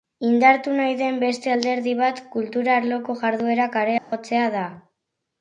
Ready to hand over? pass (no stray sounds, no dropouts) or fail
fail